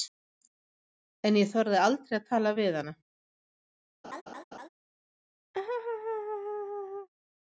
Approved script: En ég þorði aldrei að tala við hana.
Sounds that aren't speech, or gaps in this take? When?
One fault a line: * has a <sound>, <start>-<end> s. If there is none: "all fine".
* has a laugh, 4.0-4.7 s
* has a laugh, 5.5-7.1 s